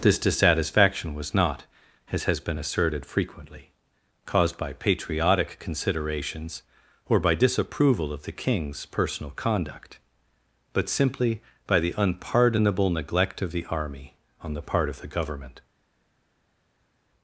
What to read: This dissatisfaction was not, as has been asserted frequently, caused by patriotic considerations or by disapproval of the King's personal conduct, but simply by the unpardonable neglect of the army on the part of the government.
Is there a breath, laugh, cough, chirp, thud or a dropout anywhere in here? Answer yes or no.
no